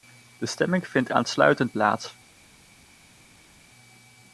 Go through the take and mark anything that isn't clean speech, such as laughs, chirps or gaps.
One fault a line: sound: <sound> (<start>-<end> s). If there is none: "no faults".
no faults